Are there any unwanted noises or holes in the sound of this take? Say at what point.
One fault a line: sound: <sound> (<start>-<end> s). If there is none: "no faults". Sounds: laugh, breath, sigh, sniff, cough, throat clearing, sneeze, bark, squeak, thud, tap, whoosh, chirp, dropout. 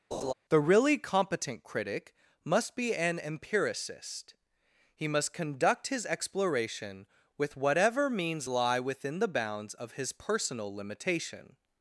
sound: laugh (0.1-0.3 s)